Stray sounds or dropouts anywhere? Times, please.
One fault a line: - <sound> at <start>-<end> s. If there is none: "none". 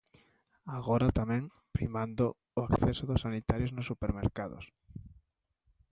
none